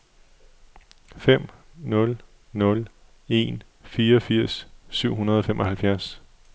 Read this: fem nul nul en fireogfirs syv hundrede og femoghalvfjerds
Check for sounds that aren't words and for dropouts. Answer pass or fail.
pass